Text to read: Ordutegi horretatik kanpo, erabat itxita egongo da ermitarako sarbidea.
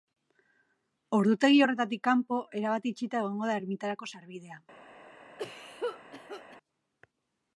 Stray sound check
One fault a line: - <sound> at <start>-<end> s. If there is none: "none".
- cough at 5.4-6.6 s